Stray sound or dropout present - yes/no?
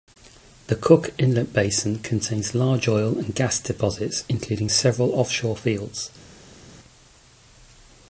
no